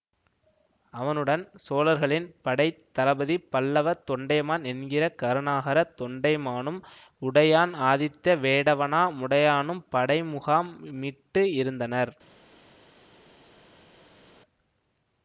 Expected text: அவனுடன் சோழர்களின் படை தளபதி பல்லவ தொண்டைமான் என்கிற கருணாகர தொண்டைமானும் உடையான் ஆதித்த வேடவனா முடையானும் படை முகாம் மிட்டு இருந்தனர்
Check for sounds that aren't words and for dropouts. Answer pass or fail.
pass